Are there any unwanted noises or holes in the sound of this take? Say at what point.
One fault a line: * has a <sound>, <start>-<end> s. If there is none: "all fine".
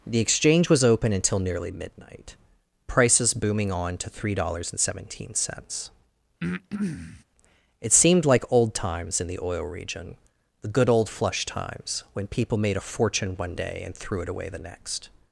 * has a breath, 6.4-7.2 s